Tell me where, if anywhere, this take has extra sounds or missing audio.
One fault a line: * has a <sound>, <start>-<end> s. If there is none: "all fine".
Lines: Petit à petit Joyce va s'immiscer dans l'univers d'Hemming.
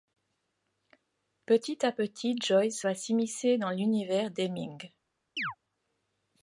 * has a chirp, 5.4-5.6 s